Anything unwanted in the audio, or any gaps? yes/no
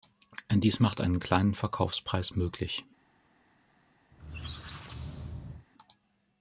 yes